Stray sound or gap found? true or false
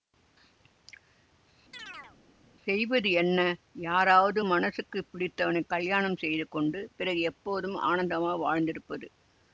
true